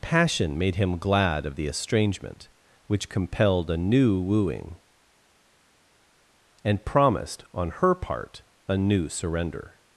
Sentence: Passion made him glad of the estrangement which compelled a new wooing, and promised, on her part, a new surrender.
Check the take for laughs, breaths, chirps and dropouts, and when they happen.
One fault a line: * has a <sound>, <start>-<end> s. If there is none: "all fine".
all fine